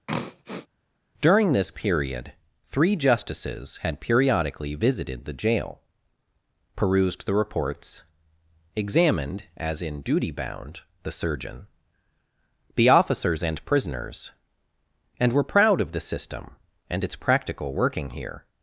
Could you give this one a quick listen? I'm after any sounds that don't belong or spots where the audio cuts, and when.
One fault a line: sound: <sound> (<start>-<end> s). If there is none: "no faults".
sound: throat clearing (0.1-0.7 s)